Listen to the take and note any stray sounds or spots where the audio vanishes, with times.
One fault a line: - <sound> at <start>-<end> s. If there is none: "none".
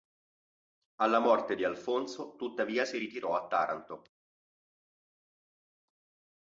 none